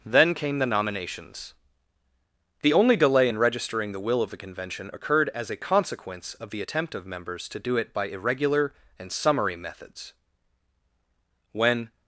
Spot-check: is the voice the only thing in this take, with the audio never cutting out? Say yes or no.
yes